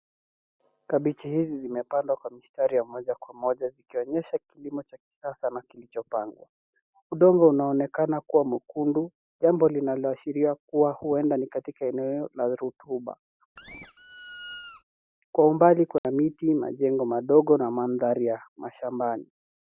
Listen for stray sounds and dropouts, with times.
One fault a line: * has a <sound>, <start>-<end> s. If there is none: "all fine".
* has a squeak, 13.6-14.8 s
* has a dropout, 16.0-16.0 s